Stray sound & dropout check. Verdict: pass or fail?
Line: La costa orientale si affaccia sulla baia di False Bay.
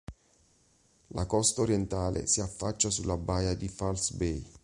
pass